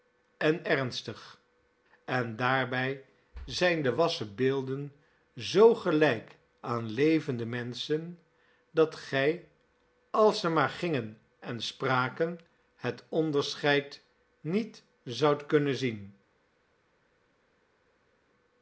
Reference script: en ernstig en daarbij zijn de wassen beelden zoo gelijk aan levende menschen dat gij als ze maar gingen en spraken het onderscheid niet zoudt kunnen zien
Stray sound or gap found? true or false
false